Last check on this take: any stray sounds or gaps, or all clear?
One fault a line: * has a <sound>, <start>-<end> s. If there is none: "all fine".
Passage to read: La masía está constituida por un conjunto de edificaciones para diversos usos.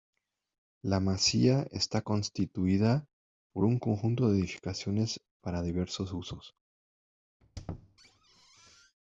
* has a squeak, 7.4-9.0 s